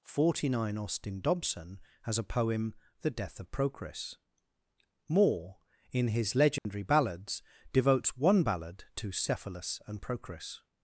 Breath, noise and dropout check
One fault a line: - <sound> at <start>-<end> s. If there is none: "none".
- dropout at 6.6-6.7 s